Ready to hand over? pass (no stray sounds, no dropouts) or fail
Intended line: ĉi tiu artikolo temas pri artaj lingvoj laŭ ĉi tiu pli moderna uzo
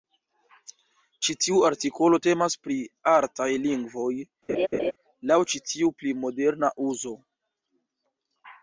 fail